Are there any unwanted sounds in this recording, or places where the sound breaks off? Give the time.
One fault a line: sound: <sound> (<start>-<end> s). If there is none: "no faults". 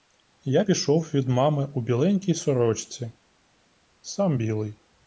no faults